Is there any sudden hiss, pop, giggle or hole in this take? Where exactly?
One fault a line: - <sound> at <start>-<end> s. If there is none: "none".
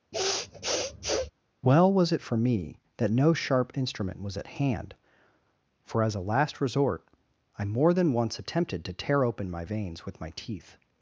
- sniff at 0.1-1.3 s